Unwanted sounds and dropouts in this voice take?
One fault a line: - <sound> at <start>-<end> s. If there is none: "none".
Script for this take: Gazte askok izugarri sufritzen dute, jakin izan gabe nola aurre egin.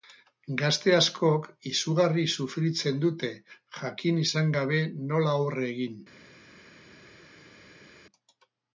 none